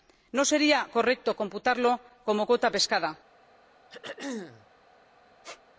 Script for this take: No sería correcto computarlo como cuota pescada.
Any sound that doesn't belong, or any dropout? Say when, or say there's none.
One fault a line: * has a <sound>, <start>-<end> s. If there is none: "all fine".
* has a throat clearing, 3.9-4.7 s
* has a squeak, 5.4-5.6 s